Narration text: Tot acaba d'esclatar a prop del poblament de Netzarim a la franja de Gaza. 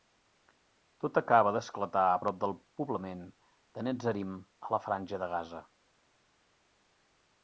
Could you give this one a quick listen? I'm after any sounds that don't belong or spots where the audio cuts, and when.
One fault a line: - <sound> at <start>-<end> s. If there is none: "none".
none